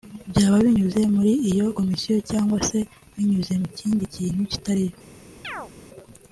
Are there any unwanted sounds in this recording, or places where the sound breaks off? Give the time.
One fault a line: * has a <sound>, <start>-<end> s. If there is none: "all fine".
* has a chirp, 5.4-5.7 s